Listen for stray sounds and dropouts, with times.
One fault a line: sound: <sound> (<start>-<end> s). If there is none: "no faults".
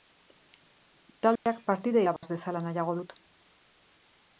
sound: dropout (1.4-1.5 s)
sound: dropout (2.2-2.2 s)